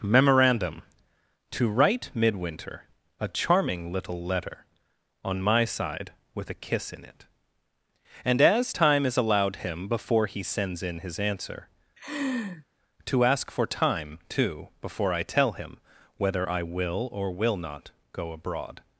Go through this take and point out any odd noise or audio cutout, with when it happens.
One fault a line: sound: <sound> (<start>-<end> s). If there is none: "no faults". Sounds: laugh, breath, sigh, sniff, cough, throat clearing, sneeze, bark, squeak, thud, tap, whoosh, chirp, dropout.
sound: laugh (12.0-12.6 s)